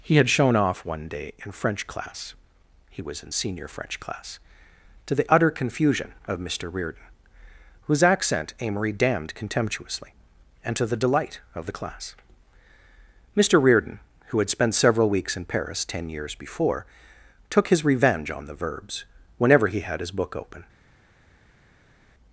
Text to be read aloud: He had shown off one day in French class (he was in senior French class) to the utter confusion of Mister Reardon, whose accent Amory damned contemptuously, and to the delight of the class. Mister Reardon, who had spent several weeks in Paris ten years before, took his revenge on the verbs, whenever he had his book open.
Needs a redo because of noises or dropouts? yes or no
no